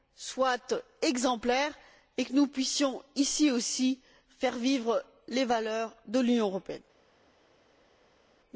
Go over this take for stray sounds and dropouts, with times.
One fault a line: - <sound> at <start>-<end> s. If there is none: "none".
none